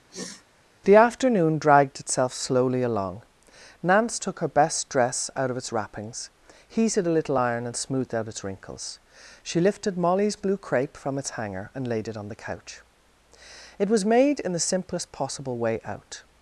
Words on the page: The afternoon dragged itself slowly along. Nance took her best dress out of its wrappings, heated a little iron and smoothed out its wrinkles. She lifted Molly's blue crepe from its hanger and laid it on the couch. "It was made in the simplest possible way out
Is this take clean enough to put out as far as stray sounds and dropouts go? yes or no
no